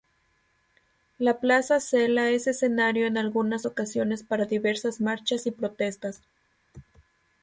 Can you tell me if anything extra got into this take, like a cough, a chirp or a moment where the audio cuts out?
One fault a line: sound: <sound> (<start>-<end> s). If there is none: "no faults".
no faults